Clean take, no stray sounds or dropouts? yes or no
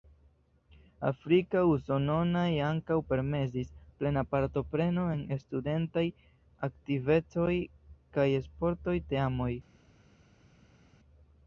yes